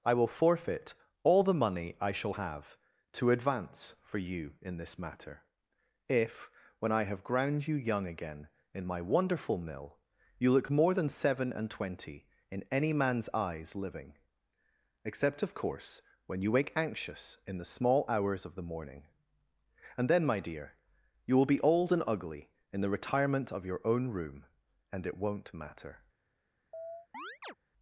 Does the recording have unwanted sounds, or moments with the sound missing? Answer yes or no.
yes